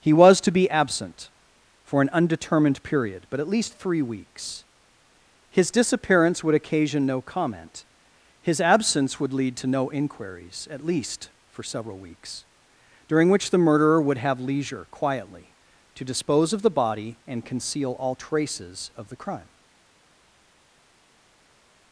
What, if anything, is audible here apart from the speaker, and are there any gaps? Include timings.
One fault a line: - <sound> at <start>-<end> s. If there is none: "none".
none